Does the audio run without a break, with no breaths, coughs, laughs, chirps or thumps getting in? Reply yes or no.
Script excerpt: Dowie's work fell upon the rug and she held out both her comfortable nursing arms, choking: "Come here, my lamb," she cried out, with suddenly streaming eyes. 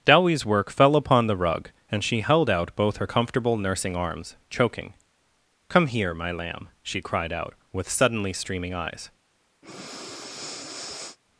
no